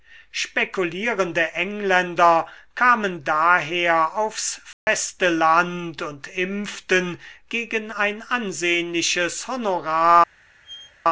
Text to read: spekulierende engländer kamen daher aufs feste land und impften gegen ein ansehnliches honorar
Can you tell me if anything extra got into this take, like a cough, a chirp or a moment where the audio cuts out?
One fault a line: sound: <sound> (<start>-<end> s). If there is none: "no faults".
sound: dropout (4.7-4.9 s)
sound: squeak (10.6-10.9 s)